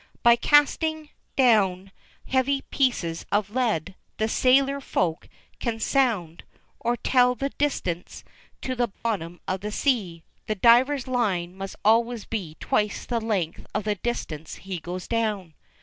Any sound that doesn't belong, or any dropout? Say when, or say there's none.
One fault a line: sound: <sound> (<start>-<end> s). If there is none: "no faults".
sound: dropout (8.9-9.1 s)